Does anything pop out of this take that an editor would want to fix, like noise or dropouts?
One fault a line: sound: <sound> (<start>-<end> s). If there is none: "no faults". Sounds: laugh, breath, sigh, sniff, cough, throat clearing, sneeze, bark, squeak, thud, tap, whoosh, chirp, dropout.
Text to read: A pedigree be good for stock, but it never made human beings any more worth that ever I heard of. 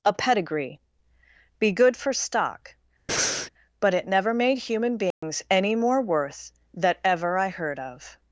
sound: breath (3.1-3.5 s)
sound: dropout (5.1-5.2 s)